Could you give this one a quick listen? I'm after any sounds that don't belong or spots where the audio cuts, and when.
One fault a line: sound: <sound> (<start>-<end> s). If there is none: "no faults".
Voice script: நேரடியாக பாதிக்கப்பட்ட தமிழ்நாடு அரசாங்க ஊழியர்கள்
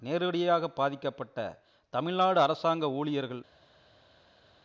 no faults